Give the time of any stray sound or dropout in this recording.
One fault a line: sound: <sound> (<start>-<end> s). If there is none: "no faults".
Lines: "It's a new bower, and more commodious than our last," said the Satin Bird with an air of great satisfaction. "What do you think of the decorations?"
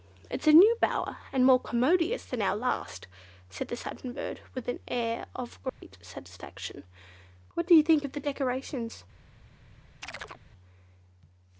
sound: dropout (5.7-5.8 s)
sound: chirp (10.0-10.4 s)